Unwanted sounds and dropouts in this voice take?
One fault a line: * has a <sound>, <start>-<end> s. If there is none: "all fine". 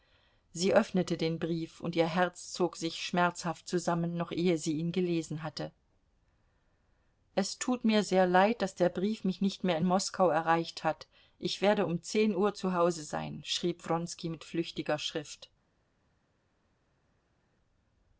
all fine